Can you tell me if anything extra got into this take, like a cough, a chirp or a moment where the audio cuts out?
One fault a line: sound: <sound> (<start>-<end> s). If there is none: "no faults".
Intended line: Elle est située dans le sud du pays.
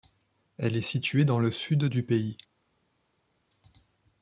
no faults